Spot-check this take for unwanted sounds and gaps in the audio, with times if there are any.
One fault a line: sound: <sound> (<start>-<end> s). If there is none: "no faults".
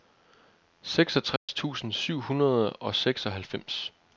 sound: dropout (1.4-1.5 s)